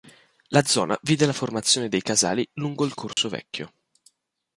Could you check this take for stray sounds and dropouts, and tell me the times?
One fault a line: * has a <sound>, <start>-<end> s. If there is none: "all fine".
* has a dropout, 3.1-3.2 s